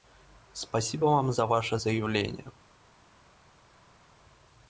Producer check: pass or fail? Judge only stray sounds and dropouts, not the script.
pass